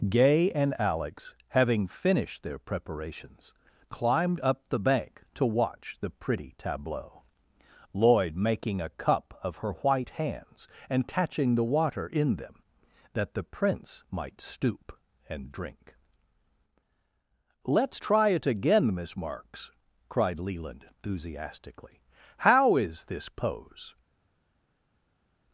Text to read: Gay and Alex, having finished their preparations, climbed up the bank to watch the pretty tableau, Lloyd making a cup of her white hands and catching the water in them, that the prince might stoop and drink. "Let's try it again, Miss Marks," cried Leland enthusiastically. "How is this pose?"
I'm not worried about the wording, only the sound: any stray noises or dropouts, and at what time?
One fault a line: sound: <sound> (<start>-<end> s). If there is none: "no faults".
no faults